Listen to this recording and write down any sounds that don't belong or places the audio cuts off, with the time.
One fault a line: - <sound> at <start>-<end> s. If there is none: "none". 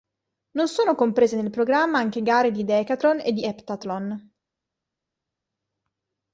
none